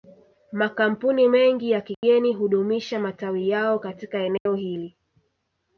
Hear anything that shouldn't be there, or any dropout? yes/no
yes